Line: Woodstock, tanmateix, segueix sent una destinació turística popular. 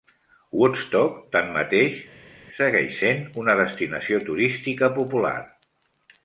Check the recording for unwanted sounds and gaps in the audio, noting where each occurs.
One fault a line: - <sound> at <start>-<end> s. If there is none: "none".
none